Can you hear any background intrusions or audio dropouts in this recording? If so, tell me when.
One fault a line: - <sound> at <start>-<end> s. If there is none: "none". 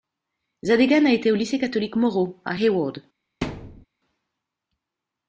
- thud at 3.4-3.9 s